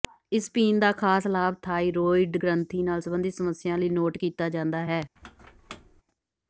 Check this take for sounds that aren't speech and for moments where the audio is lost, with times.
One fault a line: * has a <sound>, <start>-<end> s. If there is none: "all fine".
* has a squeak, 5.2-6.0 s